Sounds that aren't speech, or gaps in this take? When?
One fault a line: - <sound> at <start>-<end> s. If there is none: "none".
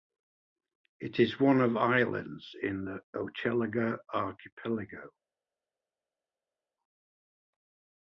none